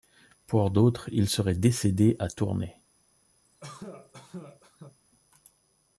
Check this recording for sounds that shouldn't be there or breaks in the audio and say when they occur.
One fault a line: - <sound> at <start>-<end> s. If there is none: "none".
- cough at 3.5-5.0 s